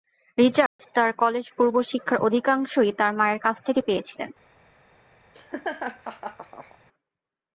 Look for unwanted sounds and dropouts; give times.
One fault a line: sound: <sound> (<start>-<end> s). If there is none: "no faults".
sound: dropout (0.7-0.8 s)
sound: laugh (5.3-6.8 s)